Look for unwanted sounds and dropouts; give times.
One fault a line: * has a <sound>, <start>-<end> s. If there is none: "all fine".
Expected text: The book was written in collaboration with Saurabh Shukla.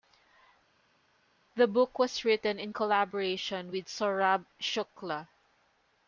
all fine